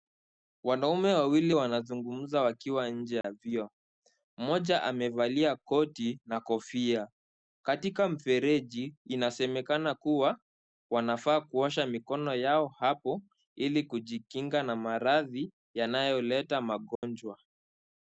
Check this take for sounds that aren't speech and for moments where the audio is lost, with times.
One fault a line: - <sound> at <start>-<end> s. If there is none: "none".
- dropout at 3.2-3.2 s
- dropout at 17.0-17.0 s